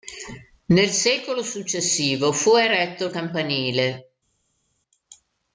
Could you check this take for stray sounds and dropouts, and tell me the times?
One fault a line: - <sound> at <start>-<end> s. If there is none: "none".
none